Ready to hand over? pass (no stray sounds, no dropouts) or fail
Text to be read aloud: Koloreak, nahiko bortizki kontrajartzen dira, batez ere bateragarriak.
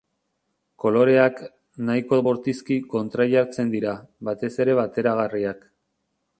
pass